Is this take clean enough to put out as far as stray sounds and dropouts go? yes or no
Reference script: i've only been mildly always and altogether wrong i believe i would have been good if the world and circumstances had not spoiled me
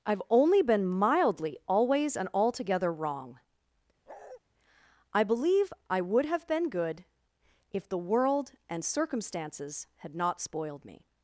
no